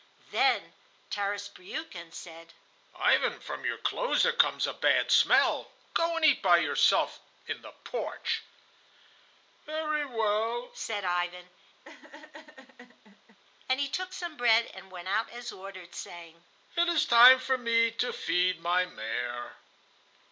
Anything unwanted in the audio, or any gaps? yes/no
yes